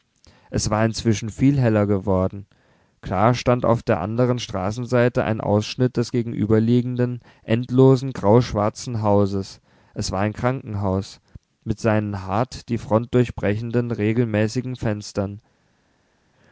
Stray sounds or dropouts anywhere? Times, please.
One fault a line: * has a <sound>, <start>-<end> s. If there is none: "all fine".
all fine